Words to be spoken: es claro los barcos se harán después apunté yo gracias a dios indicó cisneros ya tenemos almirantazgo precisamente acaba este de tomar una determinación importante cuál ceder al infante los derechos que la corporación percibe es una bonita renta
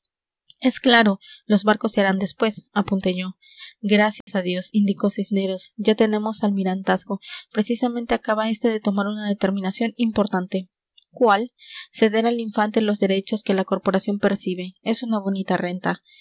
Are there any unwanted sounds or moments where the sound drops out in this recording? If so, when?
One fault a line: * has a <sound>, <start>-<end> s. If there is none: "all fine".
* has a dropout, 4.2-4.3 s